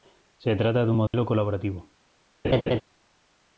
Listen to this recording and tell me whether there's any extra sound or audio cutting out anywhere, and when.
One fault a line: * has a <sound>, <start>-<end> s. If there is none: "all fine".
* has a dropout, 1.1-1.1 s
* has a laugh, 2.4-2.8 s